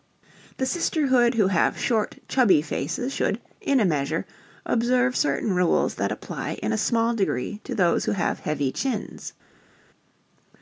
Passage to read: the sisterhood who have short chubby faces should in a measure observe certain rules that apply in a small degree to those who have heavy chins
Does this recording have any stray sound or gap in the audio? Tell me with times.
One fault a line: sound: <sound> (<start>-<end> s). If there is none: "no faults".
no faults